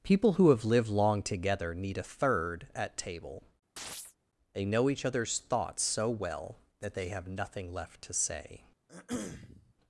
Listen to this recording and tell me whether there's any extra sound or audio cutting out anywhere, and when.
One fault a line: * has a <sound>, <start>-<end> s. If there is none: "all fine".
* has a chirp, 3.8-4.2 s
* has a throat clearing, 8.9-9.7 s